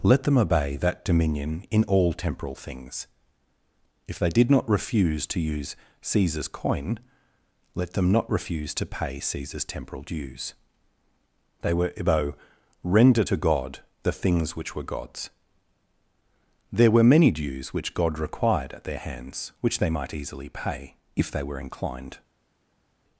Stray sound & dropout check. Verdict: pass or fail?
pass